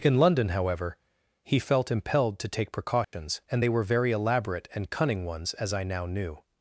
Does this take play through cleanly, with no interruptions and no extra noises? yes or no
no